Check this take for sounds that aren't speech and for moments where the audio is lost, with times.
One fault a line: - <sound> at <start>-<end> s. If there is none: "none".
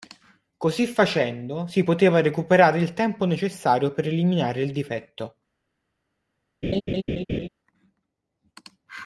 - laugh at 6.6-7.5 s